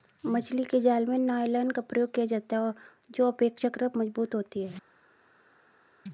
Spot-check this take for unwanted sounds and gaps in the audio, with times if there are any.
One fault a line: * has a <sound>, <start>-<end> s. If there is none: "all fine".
all fine